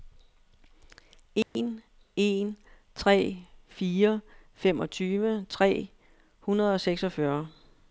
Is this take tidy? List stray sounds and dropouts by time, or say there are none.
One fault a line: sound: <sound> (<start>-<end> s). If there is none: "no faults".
sound: dropout (1.4-1.6 s)